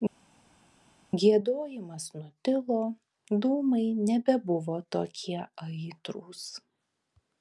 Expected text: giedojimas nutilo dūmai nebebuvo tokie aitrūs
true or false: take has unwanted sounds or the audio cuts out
false